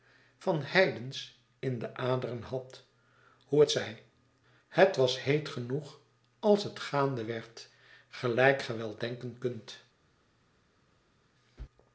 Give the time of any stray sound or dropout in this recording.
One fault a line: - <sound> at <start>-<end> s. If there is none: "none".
none